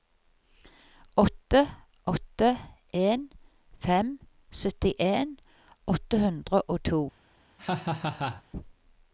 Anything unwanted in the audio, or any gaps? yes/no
yes